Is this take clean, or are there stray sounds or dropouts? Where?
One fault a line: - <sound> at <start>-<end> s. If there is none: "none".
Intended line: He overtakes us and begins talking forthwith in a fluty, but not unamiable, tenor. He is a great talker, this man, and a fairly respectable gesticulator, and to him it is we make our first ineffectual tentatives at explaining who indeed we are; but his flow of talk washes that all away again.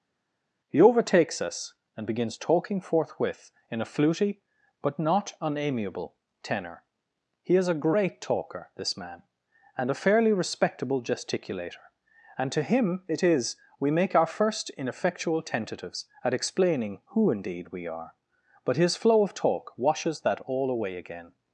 none